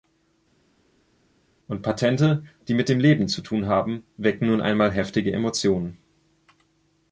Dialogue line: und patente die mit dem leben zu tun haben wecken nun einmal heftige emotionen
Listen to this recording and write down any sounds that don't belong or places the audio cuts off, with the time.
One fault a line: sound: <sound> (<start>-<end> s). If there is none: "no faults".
no faults